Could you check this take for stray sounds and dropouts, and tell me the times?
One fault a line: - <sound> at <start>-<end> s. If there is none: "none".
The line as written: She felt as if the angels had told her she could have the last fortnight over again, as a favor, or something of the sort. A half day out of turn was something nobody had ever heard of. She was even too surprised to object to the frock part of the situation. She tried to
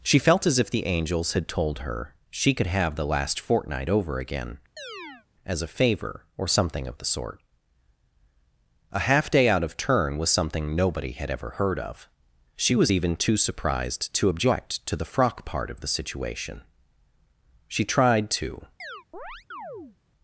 - chirp at 4.8-5.3 s
- chirp at 18.8-20.0 s